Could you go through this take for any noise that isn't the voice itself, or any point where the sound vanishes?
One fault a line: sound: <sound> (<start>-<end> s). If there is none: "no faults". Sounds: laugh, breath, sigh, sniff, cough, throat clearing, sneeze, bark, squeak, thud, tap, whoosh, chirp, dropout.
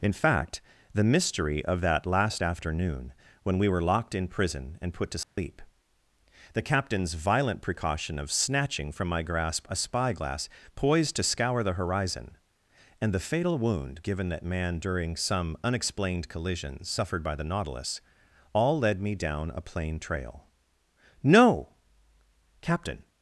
sound: dropout (5.2-5.4 s)